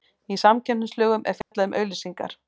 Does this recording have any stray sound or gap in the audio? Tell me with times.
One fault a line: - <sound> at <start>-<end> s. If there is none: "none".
- dropout at 1.4-1.5 s